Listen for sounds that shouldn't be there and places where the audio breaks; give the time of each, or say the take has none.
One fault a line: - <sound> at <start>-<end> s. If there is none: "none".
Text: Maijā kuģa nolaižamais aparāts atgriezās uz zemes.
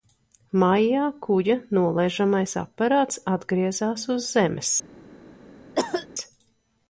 - cough at 5.7-6.1 s